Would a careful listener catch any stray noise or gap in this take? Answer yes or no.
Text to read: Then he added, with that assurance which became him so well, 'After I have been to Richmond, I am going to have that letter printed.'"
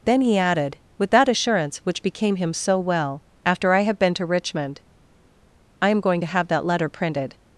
no